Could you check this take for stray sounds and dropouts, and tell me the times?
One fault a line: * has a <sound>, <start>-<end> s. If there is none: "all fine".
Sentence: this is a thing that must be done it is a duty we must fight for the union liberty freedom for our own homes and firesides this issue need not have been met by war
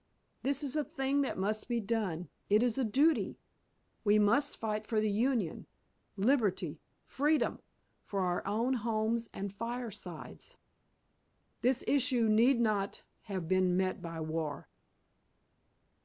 all fine